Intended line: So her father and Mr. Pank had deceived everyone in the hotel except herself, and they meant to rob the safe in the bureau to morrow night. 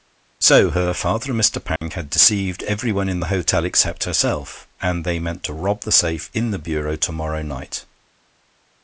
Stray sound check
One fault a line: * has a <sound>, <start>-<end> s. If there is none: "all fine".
* has a dropout, 1.8-1.8 s